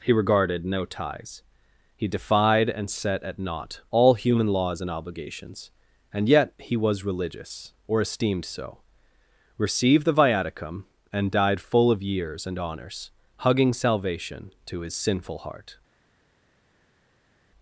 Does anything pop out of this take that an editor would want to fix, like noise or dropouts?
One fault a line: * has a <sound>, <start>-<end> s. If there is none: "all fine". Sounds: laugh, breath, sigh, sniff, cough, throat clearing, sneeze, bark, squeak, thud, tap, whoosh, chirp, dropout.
all fine